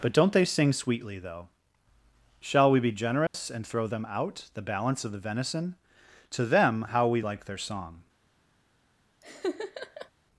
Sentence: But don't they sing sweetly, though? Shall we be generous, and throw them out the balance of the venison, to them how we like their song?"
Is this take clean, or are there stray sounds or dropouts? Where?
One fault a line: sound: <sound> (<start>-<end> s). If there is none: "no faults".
sound: dropout (3.3-3.3 s)
sound: laugh (9.2-10.1 s)